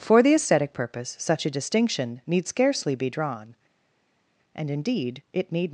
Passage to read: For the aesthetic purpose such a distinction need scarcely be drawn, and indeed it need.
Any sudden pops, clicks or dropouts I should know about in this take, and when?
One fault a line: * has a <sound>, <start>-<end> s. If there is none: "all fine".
all fine